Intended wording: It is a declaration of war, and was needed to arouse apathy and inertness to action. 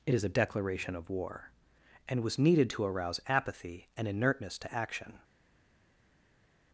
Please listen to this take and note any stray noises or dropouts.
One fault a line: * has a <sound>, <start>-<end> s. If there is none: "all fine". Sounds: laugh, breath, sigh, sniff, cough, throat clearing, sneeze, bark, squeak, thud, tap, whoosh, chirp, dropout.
all fine